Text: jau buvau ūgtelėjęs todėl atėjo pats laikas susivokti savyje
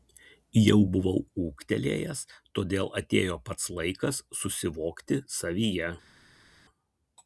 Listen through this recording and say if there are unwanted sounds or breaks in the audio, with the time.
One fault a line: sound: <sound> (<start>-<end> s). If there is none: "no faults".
no faults